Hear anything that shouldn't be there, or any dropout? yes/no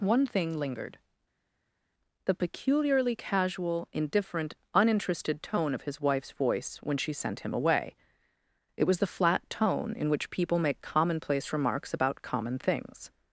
no